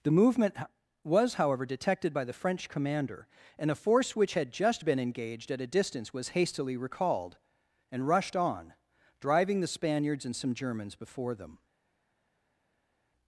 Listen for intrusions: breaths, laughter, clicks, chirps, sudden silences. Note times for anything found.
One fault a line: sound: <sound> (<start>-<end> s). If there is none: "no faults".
no faults